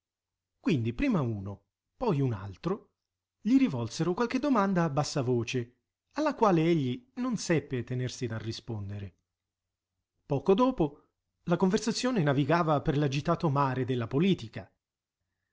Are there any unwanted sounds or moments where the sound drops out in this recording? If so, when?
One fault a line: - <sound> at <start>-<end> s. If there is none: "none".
none